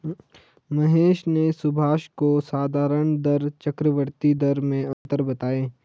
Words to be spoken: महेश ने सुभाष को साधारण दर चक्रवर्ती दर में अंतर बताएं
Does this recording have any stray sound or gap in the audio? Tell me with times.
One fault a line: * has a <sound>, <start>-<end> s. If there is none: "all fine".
* has a dropout, 4.9-5.1 s